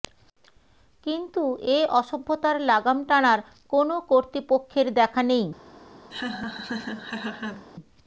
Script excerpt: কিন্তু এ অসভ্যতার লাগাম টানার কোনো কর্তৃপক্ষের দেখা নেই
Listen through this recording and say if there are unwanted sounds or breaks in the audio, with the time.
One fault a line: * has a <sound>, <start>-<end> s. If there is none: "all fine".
* has a laugh, 6.1-7.7 s